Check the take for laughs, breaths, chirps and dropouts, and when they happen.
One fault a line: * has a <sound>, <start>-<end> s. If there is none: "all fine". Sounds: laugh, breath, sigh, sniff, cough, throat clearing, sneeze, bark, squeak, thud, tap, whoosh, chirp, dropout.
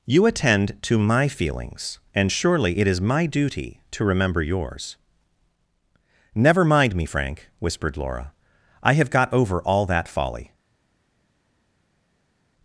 all fine